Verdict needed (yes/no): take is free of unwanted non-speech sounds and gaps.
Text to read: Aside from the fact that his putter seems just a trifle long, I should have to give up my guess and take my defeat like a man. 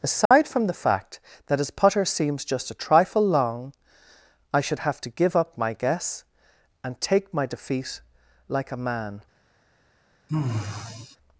no